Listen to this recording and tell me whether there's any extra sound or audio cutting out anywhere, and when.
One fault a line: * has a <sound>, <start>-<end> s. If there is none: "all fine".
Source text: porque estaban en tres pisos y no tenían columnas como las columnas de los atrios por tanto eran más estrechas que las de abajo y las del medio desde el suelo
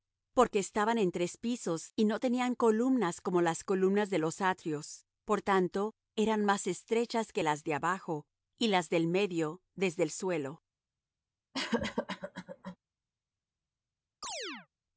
* has a cough, 11.5-12.8 s
* has a chirp, 14.2-14.7 s